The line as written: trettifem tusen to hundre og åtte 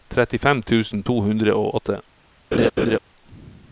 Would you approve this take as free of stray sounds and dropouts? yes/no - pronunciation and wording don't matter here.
no